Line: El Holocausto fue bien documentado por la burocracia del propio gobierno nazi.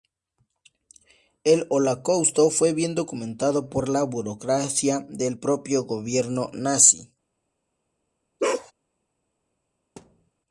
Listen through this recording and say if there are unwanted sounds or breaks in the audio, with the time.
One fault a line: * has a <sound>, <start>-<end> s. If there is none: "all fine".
* has a bark, 8.4-8.7 s
* has a thud, 10.0-10.3 s